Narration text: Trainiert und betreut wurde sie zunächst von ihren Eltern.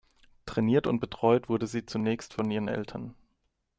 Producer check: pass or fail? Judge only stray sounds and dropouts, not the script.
pass